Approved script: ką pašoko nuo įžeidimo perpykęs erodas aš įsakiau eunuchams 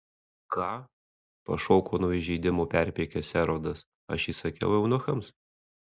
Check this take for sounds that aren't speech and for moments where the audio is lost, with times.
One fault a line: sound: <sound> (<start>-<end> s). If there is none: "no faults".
no faults